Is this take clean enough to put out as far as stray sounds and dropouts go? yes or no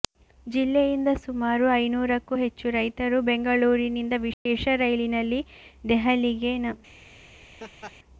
no